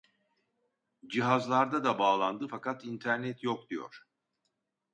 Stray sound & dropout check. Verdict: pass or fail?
pass